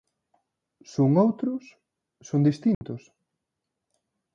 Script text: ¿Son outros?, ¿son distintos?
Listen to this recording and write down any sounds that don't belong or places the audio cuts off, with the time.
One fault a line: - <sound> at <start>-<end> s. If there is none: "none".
- dropout at 2.7-2.8 s